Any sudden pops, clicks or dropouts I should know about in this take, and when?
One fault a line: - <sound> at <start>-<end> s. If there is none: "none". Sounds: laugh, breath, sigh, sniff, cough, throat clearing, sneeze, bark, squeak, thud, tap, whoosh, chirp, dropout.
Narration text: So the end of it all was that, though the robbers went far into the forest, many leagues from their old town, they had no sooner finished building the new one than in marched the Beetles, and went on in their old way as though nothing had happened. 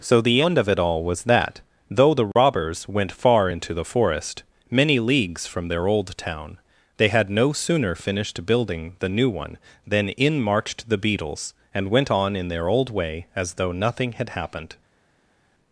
none